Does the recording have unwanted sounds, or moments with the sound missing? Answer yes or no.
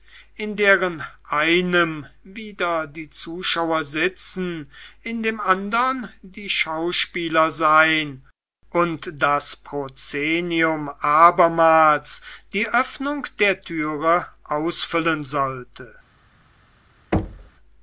yes